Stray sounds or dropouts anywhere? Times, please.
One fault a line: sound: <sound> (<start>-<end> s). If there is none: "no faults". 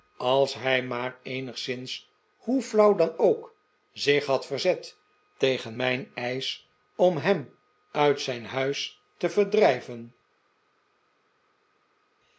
no faults